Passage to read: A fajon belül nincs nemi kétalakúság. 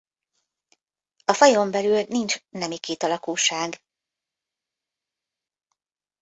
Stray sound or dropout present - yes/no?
no